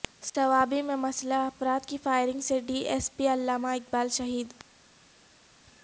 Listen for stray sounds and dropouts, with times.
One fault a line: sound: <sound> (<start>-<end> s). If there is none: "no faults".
no faults